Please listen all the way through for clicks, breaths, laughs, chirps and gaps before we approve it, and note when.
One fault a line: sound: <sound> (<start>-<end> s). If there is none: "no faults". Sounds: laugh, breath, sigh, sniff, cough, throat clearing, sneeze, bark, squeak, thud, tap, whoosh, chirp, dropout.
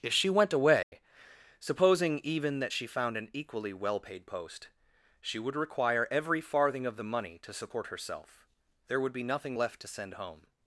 sound: dropout (0.8-0.9 s)